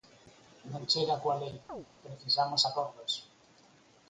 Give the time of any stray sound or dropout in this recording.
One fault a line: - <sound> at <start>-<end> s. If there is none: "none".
- chirp at 1.7-1.9 s